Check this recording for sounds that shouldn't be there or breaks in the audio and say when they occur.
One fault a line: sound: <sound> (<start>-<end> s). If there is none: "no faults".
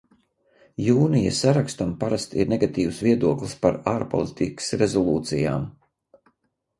no faults